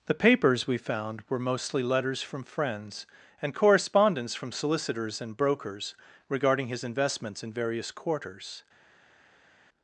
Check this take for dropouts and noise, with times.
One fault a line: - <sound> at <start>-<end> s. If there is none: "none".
none